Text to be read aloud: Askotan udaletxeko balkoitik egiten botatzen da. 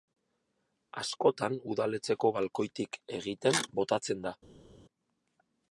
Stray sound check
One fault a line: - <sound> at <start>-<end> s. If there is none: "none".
none